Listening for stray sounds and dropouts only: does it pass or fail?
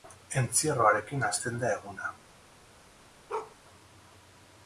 fail